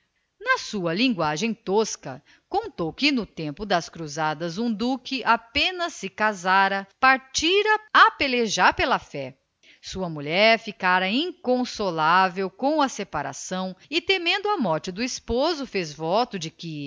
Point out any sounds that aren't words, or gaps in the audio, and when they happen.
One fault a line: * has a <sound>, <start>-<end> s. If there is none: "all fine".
all fine